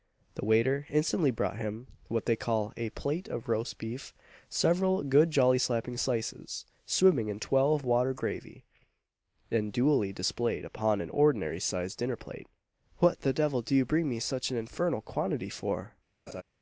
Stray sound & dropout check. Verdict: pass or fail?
fail